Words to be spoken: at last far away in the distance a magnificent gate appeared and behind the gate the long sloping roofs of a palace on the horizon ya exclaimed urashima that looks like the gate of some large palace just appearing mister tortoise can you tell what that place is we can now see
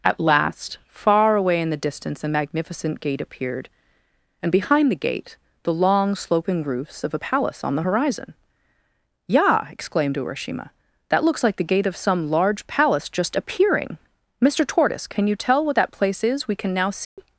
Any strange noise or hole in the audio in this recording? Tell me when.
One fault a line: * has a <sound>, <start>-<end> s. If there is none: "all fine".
* has a dropout, 17.0-17.2 s